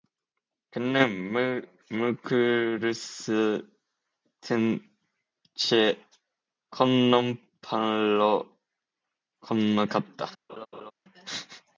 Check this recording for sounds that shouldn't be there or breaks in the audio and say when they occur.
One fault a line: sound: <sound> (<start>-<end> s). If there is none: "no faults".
sound: laugh (10.5-10.9 s)